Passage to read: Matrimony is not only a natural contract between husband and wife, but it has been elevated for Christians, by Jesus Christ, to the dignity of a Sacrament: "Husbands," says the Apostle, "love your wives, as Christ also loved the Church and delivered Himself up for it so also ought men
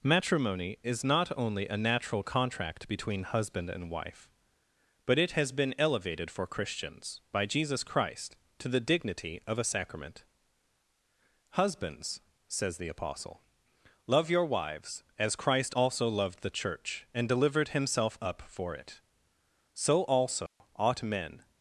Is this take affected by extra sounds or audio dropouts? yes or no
yes